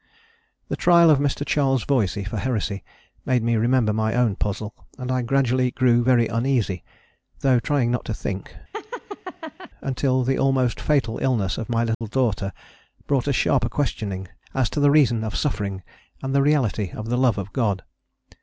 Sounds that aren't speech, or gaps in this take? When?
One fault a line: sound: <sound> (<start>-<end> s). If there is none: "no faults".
sound: laugh (8.7-9.7 s)
sound: dropout (11.9-12.0 s)